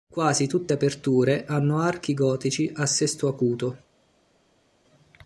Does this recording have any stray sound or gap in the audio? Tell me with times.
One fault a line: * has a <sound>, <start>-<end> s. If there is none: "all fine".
all fine